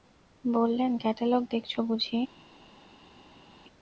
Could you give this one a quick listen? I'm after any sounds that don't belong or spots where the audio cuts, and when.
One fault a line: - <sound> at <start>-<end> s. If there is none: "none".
none